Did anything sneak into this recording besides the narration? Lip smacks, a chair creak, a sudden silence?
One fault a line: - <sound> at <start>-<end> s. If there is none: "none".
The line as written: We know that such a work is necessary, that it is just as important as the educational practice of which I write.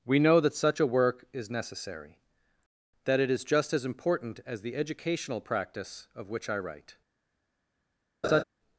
- laugh at 8.2-8.4 s